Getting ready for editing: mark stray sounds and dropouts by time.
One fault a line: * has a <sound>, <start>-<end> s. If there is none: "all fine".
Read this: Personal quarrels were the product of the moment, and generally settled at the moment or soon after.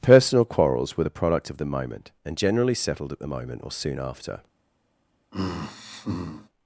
* has a sigh, 5.3-6.5 s